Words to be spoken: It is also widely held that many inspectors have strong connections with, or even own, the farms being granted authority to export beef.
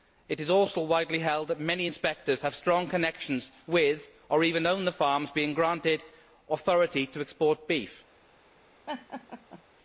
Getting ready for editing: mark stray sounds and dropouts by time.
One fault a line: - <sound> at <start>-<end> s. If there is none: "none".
- laugh at 8.9-9.6 s